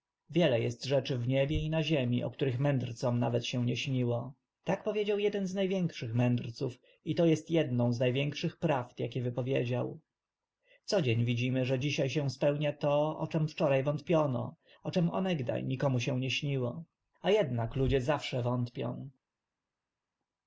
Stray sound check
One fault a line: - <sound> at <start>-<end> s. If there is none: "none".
none